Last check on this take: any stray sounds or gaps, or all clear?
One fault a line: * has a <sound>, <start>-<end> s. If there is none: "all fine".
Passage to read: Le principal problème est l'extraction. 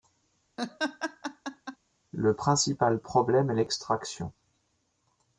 * has a laugh, 0.6-1.8 s